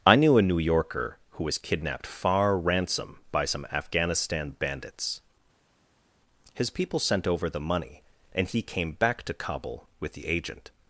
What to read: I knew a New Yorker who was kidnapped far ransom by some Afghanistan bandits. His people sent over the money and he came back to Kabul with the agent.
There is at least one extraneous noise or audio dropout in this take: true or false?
false